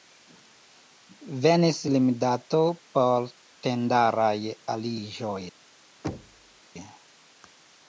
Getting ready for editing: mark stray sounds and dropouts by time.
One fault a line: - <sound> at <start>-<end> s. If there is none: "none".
- thud at 6.0-6.6 s